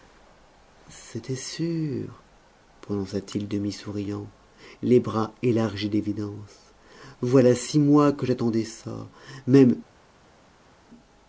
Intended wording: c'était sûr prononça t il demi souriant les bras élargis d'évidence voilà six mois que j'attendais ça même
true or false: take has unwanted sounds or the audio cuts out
false